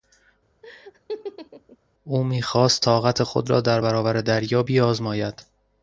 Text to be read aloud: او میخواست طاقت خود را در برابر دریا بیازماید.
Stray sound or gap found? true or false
true